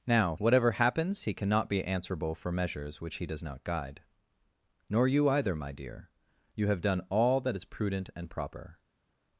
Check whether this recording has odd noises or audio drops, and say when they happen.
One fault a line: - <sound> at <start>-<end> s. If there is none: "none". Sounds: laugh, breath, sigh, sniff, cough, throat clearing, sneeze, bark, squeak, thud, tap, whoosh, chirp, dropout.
none